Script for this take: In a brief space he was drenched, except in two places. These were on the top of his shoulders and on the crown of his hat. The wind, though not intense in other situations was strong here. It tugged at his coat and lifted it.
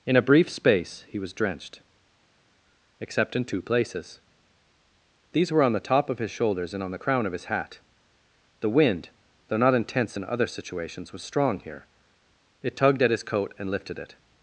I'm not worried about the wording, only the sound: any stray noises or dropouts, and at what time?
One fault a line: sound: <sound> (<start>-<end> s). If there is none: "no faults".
no faults